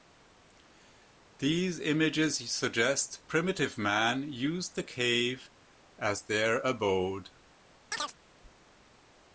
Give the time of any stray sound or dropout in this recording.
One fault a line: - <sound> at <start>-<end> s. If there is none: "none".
- chirp at 7.9-8.1 s